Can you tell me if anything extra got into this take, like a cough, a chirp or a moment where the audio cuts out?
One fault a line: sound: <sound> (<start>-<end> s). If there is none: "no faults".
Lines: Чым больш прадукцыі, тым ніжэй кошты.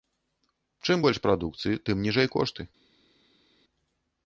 no faults